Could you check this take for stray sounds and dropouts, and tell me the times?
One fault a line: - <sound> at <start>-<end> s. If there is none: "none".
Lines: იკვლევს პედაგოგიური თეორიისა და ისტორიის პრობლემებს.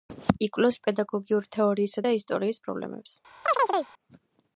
- chirp at 3.4-3.9 s